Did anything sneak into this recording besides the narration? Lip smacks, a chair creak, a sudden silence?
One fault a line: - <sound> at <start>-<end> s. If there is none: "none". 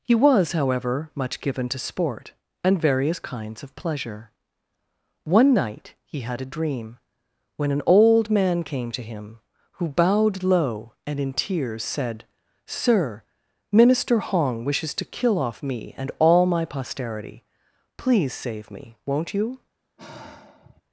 - sigh at 20.0-20.8 s